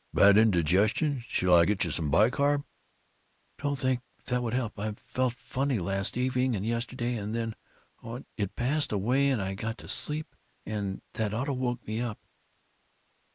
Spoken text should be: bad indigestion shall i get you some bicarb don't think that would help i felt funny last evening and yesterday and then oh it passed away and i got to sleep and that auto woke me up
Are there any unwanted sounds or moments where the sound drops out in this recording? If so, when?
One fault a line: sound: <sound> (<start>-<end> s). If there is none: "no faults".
no faults